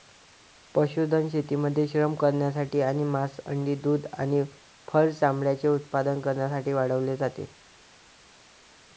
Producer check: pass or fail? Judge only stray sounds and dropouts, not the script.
pass